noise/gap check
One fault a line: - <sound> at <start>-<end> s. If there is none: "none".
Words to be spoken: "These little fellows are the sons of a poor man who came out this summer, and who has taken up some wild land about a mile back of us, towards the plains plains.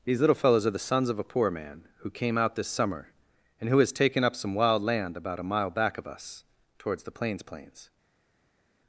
none